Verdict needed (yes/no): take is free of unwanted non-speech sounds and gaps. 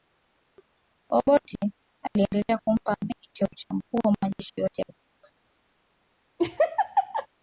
no